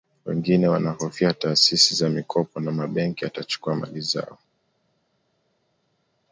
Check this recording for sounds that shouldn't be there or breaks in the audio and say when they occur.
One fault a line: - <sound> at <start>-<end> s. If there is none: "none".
none